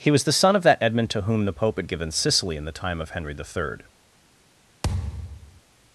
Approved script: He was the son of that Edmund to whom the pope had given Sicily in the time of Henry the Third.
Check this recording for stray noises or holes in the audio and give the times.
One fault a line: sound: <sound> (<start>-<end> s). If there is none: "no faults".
sound: thud (4.8-5.6 s)